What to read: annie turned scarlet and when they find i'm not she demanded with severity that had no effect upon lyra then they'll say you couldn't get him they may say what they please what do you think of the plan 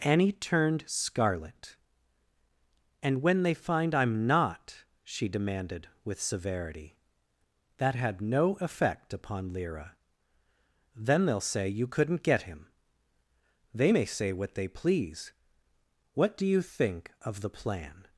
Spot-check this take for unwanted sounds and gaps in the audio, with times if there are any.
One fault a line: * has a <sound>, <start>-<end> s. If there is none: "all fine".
all fine